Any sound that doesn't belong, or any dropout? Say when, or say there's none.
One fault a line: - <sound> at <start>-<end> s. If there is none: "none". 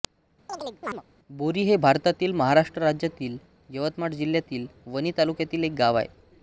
- chirp at 0.5-1.0 s